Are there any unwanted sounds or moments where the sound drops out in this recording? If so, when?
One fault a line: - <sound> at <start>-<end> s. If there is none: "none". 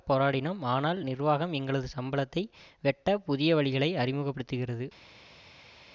none